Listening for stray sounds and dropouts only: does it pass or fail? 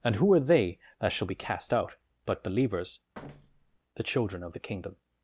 fail